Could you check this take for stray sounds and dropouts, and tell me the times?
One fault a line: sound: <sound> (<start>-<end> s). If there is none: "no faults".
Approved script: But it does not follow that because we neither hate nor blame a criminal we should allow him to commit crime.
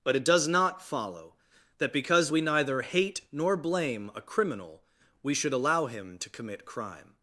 no faults